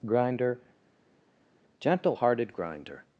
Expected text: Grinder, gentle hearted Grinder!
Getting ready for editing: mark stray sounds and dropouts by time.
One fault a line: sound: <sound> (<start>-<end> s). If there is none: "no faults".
no faults